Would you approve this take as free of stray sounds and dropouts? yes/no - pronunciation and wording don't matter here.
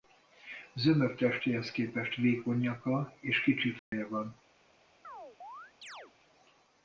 no